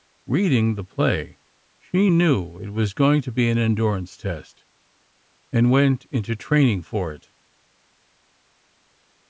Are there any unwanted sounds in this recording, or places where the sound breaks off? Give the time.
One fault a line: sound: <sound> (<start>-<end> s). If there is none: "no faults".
no faults